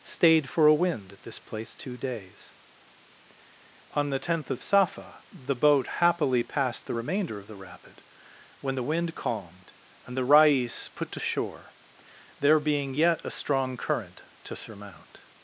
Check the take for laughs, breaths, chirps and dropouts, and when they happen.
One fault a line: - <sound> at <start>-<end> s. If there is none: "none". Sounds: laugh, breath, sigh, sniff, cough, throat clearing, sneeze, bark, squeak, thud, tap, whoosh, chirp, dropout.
none